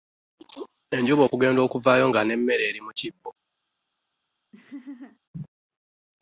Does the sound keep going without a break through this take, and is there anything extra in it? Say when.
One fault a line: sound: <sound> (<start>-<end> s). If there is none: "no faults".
sound: laugh (4.5-5.2 s)